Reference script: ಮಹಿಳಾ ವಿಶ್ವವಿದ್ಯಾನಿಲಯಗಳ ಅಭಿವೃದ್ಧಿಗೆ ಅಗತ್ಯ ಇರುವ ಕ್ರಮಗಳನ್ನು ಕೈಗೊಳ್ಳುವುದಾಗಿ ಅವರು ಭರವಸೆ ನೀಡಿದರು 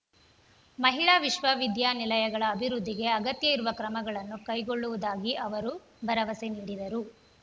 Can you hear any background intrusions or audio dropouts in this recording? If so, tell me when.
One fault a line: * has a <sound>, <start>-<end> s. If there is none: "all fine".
all fine